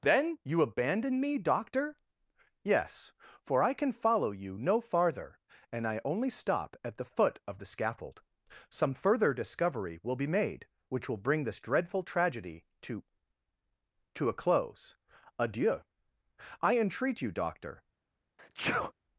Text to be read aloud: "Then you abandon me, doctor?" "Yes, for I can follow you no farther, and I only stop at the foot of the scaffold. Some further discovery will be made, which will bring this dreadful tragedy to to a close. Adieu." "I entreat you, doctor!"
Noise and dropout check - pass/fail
fail